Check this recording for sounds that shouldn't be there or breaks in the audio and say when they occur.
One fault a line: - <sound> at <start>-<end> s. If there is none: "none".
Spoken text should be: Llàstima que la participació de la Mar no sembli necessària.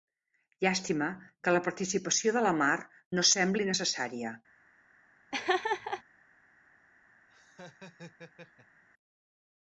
- laugh at 5.3-6.0 s
- laugh at 7.3-8.8 s